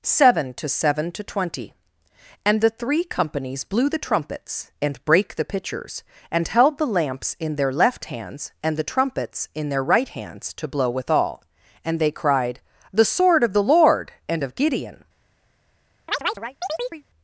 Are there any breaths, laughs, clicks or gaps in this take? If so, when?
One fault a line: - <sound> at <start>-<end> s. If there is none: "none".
- chirp at 16.1-17.0 s